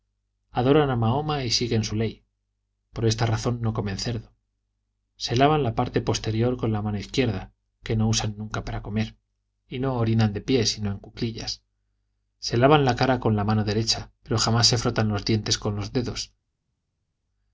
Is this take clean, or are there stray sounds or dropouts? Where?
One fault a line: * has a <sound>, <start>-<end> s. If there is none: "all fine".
all fine